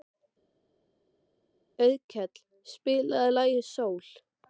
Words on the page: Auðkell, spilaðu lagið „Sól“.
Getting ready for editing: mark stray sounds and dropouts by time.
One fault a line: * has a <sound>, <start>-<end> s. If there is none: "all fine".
all fine